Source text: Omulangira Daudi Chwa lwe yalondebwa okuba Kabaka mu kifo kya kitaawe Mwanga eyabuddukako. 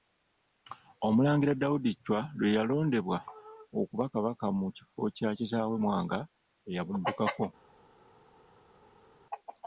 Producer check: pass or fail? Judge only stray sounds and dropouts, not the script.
pass